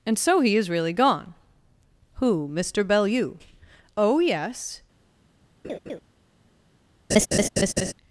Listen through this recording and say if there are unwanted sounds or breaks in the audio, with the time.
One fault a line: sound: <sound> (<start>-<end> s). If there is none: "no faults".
sound: laugh (5.6-6.0 s)
sound: laugh (7.1-7.9 s)